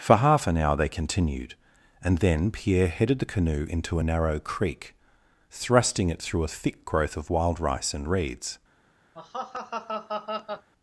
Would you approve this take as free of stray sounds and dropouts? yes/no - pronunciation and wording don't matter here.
no